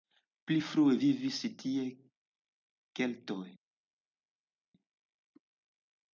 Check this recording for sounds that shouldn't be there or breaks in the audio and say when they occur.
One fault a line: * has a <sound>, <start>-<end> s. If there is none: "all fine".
all fine